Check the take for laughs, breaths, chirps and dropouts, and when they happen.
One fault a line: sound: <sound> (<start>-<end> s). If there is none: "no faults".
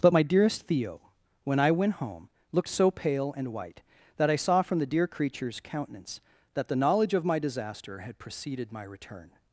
no faults